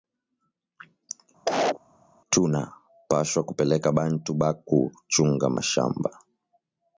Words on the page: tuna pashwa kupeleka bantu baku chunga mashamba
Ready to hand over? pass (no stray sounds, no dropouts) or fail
fail